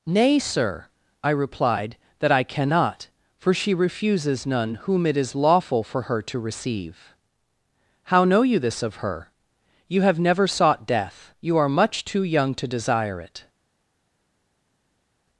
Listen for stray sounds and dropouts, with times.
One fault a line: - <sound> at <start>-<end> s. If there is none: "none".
none